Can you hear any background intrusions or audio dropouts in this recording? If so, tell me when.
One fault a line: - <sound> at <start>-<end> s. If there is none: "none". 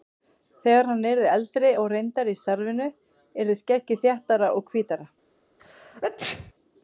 - sneeze at 5.6-6.5 s